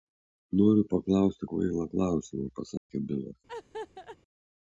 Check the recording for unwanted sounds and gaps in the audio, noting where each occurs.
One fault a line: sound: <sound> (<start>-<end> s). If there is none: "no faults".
sound: dropout (2.8-2.9 s)
sound: laugh (3.5-4.2 s)